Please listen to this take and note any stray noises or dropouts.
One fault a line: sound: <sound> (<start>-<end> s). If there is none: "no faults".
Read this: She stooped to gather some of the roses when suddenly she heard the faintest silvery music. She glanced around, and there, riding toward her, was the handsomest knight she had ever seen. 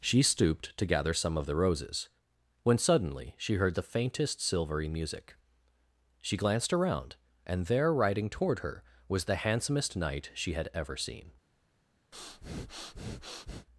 sound: breath (12.1-13.7 s)